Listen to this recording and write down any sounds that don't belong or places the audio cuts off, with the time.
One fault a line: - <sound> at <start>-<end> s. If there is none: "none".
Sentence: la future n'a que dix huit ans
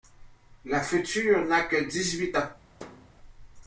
- thud at 2.8-3.1 s